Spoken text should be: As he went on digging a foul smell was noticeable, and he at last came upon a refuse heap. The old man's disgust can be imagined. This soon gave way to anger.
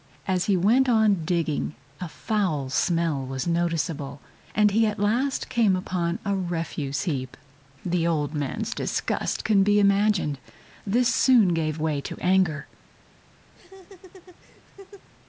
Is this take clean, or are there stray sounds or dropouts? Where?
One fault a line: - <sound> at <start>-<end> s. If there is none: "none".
- laugh at 13.5-15.1 s